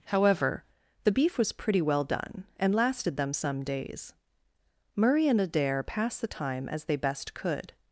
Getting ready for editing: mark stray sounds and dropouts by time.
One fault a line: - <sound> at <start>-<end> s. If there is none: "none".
none